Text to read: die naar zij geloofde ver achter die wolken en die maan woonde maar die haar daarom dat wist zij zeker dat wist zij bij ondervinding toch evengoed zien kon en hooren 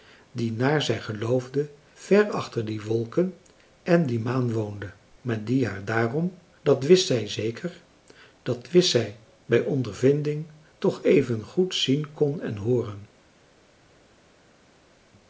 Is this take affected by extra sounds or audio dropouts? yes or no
no